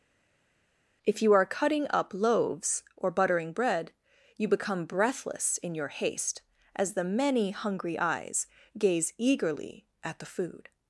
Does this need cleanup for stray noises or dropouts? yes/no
no